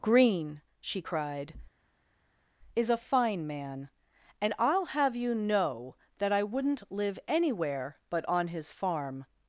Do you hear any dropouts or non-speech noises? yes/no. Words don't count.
no